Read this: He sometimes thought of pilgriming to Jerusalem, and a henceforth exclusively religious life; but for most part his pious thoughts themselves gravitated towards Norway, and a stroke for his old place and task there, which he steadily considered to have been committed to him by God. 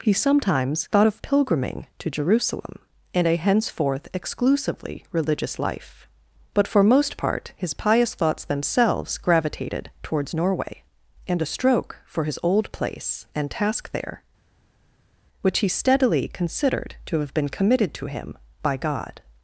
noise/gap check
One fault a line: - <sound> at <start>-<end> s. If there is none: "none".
none